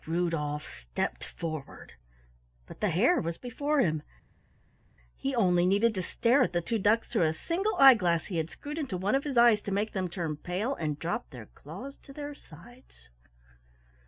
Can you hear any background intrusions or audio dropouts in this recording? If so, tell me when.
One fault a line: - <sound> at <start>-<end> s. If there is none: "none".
none